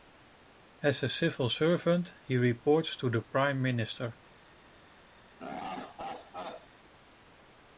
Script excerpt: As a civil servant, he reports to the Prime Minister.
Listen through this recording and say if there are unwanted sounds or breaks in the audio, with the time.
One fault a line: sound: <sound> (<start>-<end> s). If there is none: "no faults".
sound: laugh (5.4-6.7 s)